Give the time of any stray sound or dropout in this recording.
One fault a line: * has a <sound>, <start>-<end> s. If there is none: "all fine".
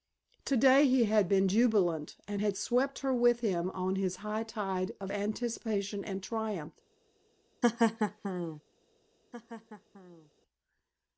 * has a laugh, 7.6-8.6 s
* has a laugh, 9.3-10.3 s